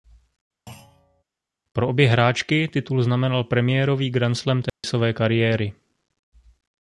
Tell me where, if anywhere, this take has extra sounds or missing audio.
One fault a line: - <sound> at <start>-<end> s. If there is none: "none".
- thud at 0.7-1.2 s
- dropout at 4.7-4.8 s